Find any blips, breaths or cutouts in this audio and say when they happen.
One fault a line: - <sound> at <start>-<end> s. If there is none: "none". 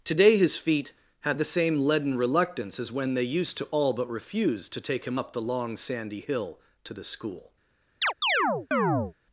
- chirp at 8.0-9.1 s